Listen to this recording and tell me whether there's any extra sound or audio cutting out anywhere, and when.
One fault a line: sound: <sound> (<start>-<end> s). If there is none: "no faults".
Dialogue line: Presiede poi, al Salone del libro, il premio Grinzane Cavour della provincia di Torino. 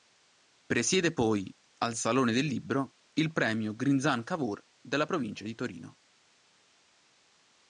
no faults